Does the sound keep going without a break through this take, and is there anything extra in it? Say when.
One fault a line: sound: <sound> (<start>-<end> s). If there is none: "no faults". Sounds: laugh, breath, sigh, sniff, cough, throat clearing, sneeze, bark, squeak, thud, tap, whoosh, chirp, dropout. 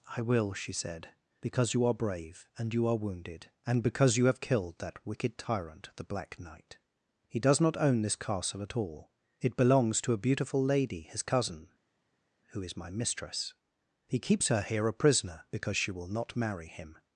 no faults